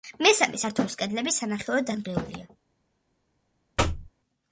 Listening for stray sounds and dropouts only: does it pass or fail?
fail